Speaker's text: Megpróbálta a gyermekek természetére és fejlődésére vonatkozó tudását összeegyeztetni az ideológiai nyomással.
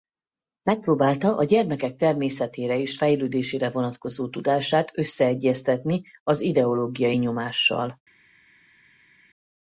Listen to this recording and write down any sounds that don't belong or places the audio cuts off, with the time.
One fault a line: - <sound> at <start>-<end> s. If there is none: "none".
none